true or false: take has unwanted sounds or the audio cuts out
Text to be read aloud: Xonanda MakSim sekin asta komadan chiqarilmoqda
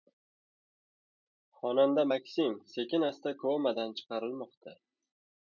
false